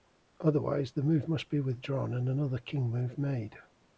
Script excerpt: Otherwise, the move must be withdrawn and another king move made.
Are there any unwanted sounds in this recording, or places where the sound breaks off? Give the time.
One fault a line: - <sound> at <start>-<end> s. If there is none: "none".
none